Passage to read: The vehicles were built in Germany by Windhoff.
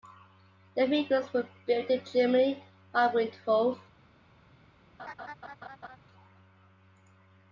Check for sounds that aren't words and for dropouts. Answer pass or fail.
fail